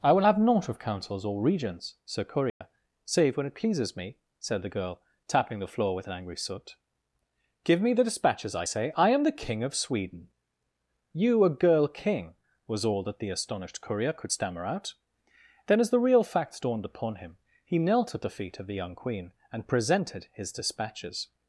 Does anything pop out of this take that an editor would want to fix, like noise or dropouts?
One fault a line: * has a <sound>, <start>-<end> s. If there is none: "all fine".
* has a dropout, 2.5-2.6 s